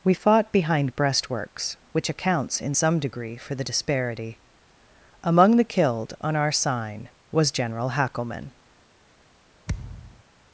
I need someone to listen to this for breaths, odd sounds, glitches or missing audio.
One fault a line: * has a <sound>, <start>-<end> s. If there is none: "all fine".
* has a thud, 9.7-10.2 s